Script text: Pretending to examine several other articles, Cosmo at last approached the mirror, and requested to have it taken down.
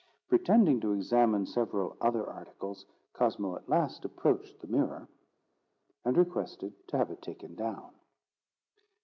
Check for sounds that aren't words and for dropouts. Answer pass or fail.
pass